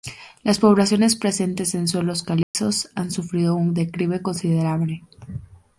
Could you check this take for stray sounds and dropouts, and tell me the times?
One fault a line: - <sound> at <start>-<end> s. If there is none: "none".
- dropout at 2.4-2.5 s